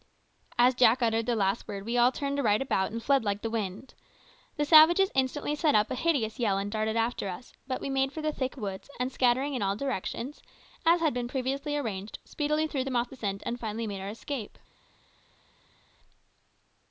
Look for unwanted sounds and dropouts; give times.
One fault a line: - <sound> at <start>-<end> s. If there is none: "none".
none